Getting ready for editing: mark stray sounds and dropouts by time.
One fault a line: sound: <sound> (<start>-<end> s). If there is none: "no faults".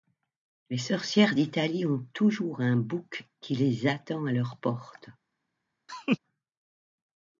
sound: laugh (5.9-6.2 s)